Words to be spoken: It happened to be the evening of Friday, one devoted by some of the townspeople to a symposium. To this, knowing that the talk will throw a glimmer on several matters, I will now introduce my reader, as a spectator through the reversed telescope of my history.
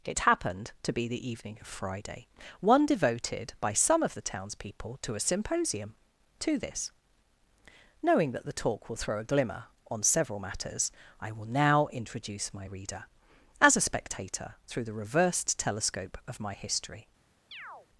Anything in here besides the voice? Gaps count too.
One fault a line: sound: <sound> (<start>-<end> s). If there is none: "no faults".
sound: chirp (17.5-17.9 s)